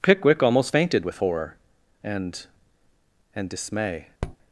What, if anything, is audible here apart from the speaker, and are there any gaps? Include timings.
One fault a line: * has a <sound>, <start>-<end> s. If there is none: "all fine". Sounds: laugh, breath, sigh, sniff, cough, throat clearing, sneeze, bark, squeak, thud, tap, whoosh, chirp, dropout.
* has a tap, 4.2-4.4 s